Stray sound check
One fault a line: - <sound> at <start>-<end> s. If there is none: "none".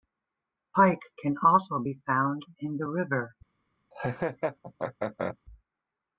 - laugh at 3.9-5.4 s